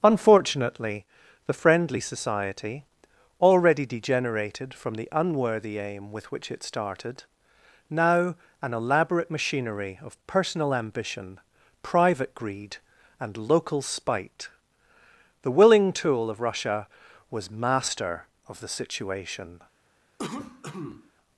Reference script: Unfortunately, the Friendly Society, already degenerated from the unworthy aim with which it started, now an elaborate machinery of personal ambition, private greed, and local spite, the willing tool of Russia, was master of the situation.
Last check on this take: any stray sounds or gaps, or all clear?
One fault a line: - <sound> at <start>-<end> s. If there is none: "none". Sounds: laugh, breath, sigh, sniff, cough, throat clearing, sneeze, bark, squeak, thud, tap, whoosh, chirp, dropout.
- cough at 20.2-21.1 s